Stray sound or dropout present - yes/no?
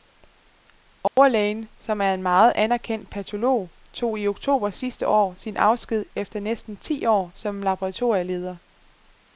yes